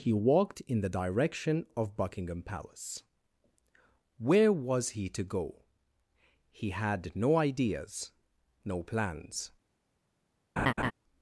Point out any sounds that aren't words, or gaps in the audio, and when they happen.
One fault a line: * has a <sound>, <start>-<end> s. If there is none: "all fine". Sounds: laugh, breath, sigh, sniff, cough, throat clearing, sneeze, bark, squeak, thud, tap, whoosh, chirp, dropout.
* has a laugh, 10.6-10.9 s